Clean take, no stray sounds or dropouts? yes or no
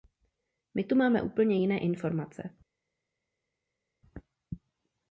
yes